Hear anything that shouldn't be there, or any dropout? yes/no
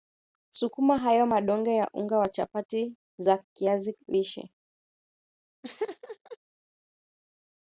yes